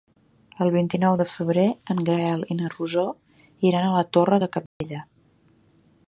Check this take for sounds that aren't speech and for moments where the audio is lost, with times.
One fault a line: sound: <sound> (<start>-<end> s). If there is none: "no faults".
sound: dropout (4.7-4.8 s)